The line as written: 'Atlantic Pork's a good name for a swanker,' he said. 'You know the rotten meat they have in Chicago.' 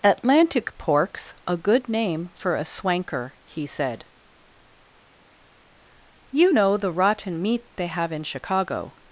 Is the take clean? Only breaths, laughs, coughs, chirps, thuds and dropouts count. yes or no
yes